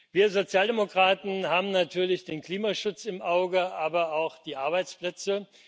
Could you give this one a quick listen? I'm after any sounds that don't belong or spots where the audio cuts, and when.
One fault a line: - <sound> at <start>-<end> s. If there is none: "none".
none